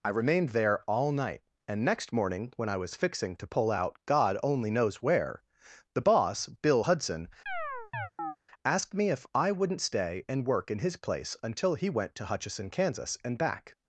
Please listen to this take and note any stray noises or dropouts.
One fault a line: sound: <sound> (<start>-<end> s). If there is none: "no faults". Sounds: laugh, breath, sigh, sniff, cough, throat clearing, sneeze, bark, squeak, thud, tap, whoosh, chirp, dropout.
sound: chirp (7.5-8.4 s)